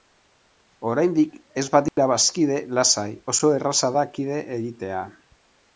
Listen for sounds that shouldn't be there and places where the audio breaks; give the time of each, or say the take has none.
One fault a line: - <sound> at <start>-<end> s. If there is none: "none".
- dropout at 1.9-2.0 s